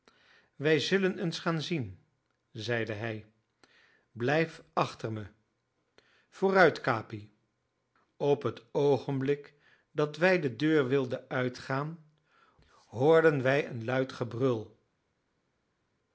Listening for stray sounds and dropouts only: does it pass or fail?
pass